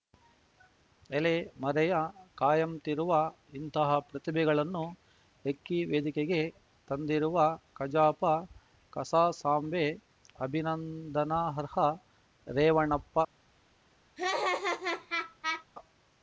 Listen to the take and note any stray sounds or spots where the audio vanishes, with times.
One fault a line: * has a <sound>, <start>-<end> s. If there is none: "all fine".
* has a laugh, 14.2-15.6 s